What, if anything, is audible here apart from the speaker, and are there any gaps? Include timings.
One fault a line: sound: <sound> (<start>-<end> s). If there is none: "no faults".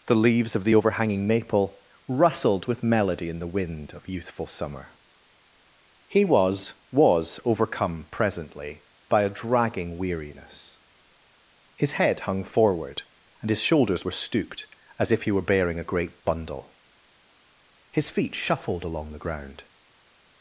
no faults